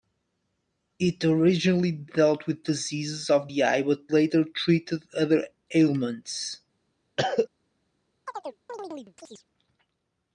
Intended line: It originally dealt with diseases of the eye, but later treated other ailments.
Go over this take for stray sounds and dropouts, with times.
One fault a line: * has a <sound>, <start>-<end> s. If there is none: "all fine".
* has a cough, 7.2-7.5 s
* has a chirp, 8.3-9.4 s